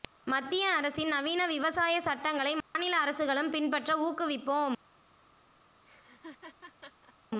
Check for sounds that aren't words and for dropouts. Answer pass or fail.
fail